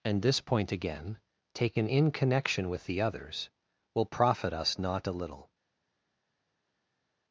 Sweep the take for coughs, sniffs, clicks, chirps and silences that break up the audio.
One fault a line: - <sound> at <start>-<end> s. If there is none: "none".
none